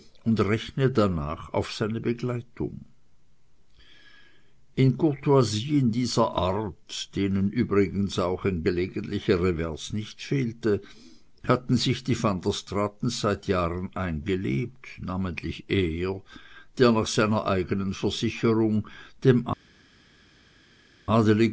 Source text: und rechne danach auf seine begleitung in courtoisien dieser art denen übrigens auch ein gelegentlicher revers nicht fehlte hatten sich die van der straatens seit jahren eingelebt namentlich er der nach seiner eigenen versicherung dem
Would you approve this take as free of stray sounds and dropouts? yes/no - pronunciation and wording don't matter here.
yes